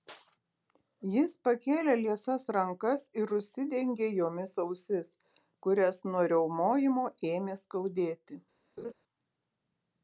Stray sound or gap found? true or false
true